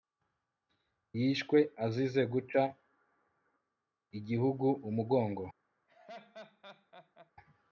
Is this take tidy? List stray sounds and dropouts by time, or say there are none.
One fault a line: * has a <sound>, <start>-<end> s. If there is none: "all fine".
* has a laugh, 5.9-7.3 s